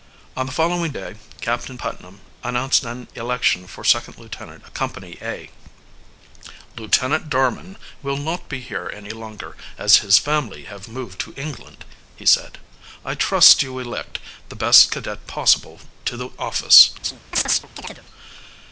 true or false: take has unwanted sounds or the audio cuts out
true